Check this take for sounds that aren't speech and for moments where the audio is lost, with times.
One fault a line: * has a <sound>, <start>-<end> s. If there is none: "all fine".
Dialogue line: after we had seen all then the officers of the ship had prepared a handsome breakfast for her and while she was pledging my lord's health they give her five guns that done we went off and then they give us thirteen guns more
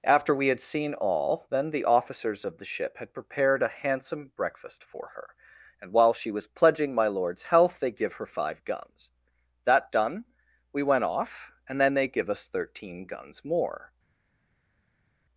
all fine